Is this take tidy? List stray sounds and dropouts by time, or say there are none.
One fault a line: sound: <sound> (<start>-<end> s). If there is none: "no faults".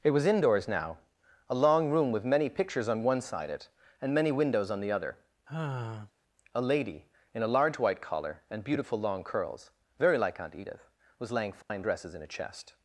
sound: sigh (5.5-6.1 s)
sound: dropout (11.6-11.7 s)